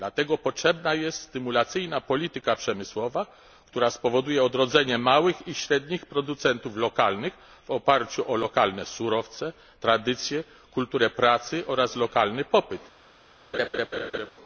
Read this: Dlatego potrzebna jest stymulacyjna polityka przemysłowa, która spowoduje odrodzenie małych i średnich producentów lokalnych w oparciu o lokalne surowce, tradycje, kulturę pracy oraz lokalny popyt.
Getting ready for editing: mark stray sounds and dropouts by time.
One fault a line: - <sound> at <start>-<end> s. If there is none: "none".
- laugh at 13.5-14.3 s